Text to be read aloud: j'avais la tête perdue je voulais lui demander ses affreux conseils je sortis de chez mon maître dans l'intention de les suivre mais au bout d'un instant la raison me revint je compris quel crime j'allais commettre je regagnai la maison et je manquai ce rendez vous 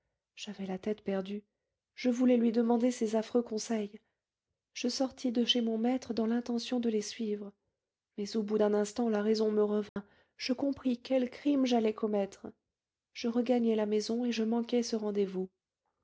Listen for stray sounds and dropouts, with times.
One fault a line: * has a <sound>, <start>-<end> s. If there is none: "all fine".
* has a dropout, 9.9-10.0 s